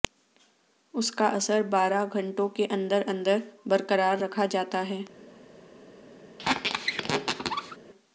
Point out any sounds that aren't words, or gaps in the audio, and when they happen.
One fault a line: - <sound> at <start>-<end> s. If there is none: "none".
- squeak at 6.4-7.8 s